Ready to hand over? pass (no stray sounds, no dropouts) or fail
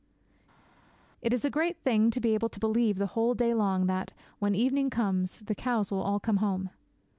pass